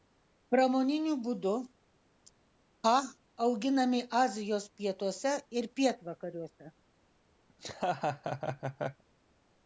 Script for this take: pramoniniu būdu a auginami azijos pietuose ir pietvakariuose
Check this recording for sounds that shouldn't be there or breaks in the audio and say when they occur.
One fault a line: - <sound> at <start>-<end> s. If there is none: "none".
- laugh at 7.5-9.0 s